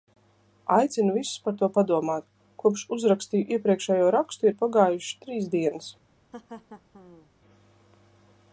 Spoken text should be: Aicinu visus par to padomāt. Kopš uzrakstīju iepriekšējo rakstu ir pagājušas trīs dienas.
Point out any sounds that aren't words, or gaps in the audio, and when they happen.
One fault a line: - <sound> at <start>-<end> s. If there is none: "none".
- laugh at 6.3-7.3 s